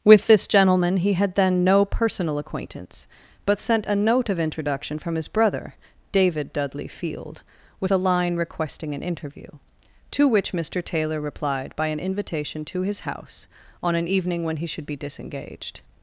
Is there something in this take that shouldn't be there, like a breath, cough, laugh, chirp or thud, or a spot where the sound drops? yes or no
no